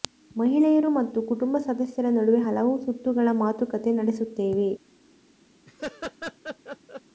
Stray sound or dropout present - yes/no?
yes